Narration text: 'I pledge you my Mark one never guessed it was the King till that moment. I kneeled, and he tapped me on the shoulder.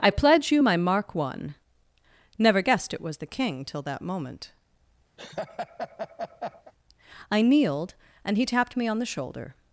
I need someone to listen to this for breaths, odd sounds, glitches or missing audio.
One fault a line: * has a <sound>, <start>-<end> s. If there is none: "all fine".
* has a laugh, 5.2-6.7 s